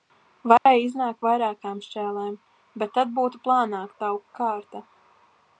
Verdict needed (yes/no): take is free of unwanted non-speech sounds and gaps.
no